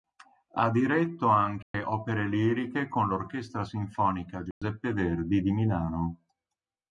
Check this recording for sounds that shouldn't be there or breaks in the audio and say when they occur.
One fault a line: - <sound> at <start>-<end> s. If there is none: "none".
- dropout at 1.6-1.7 s
- dropout at 4.5-4.6 s